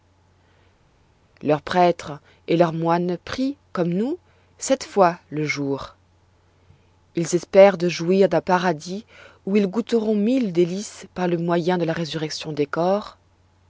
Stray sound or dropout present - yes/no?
no